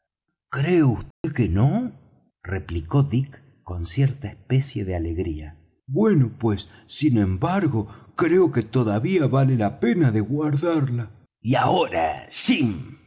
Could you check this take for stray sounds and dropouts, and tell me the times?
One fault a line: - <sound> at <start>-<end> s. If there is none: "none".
- dropout at 1.1-1.2 s